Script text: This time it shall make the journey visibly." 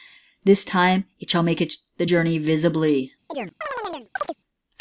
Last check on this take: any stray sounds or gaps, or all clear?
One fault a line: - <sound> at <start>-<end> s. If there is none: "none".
- chirp at 3.3-4.4 s